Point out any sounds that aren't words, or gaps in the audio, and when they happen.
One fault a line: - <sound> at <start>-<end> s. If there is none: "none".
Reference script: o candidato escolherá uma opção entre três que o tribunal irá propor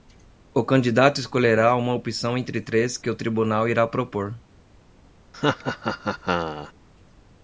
- laugh at 5.3-6.7 s